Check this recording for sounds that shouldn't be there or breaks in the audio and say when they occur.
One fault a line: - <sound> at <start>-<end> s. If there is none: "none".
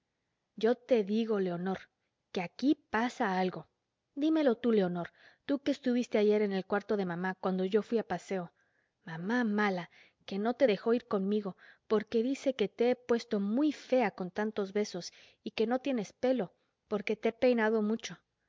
none